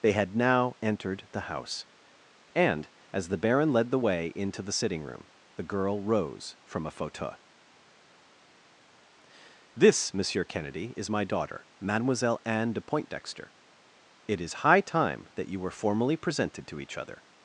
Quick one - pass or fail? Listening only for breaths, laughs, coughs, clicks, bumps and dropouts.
pass